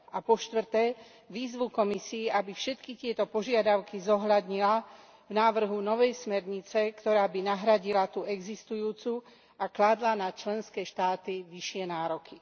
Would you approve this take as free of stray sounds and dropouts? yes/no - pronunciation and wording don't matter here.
yes